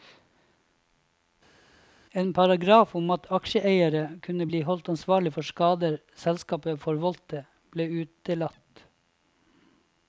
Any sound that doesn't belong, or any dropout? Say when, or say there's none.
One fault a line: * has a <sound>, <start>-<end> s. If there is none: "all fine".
all fine